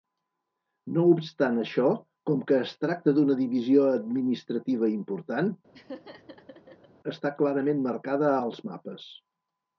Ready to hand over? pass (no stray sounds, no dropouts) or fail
fail